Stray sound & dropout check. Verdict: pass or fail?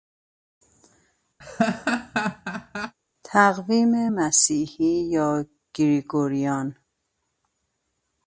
fail